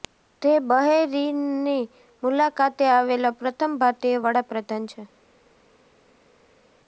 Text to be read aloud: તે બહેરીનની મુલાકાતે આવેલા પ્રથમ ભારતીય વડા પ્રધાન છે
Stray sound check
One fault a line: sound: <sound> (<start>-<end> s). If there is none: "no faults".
no faults